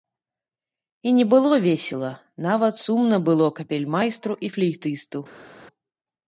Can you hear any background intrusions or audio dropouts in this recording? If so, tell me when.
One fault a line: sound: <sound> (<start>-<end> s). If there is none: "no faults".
no faults